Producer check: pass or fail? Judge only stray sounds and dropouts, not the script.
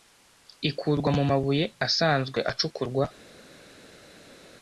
pass